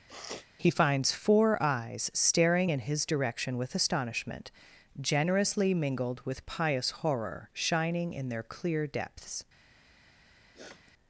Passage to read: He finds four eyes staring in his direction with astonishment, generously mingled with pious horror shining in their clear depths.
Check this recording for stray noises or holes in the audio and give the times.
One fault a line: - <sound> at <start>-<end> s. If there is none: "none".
- sniff at 0.1-0.5 s
- sniff at 10.5-10.9 s